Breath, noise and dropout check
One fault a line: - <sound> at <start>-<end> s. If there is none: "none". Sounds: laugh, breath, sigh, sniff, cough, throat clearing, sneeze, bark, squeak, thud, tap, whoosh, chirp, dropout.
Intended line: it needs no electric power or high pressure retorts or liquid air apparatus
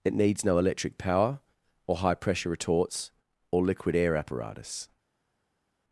none